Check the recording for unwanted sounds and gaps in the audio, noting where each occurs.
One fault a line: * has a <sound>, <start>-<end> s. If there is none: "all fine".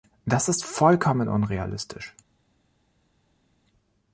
all fine